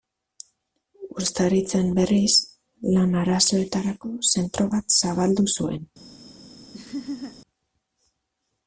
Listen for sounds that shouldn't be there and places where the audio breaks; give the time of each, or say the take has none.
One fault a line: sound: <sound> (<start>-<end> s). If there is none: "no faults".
sound: laugh (6.7-7.4 s)